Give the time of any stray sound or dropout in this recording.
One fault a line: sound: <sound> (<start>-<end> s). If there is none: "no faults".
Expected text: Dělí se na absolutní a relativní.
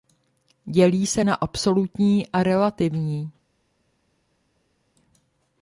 no faults